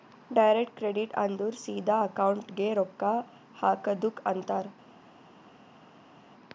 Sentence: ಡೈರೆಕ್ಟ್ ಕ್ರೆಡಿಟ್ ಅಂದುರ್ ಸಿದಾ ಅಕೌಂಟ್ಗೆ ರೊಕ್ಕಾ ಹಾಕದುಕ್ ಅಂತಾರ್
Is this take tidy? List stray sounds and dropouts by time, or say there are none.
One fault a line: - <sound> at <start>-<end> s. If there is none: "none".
none